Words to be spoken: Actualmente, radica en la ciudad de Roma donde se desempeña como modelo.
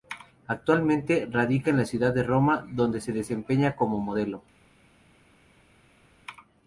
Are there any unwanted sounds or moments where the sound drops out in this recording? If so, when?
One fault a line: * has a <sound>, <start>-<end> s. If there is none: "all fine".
all fine